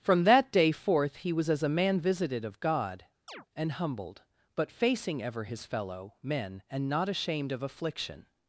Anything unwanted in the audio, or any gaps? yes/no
yes